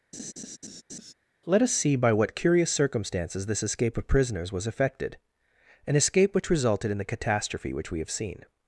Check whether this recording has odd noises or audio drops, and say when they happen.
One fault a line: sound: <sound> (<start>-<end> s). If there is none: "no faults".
sound: laugh (0.1-1.1 s)